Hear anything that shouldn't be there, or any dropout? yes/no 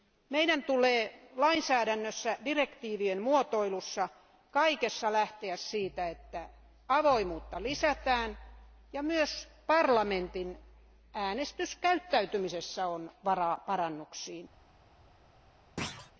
yes